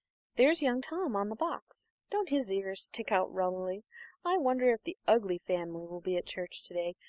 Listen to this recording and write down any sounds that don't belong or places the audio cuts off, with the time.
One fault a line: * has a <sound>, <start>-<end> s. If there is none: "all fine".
all fine